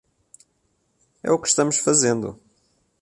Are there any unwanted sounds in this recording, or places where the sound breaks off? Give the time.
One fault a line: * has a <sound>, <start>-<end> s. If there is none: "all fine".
all fine